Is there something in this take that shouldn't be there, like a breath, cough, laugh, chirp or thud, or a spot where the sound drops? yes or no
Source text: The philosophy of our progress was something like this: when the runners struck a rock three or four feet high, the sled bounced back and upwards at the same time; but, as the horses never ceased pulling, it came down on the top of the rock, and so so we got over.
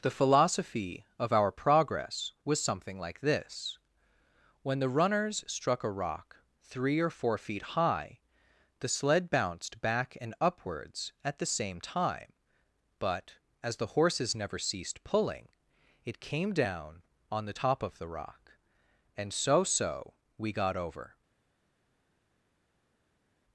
no